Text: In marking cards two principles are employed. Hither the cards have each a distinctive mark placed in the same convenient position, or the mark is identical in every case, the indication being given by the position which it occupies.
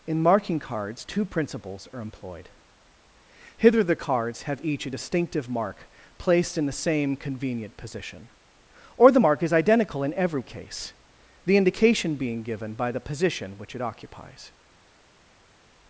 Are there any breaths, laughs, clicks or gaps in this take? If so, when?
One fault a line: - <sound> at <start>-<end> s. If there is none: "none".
none